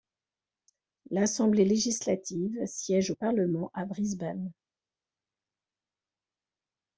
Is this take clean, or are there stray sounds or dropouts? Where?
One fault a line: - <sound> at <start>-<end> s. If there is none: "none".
none